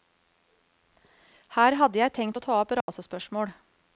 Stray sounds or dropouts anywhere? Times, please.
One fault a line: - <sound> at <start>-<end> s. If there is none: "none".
- dropout at 2.8-2.9 s